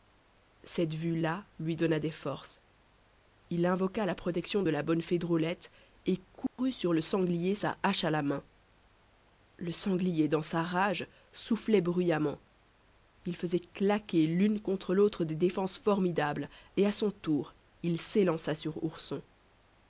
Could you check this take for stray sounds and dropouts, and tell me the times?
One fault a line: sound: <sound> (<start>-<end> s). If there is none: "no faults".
sound: dropout (6.5-6.6 s)